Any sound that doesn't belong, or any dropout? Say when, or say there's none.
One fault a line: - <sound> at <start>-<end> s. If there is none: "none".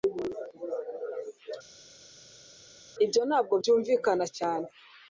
none